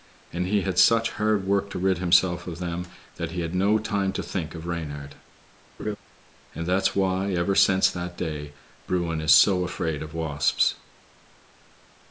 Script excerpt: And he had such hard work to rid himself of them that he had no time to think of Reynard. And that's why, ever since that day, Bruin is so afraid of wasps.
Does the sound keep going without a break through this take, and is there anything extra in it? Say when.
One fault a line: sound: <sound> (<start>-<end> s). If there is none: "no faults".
sound: laugh (5.8-6.0 s)